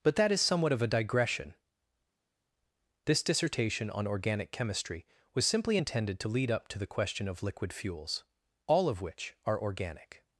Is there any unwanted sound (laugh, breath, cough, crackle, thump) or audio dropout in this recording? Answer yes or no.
no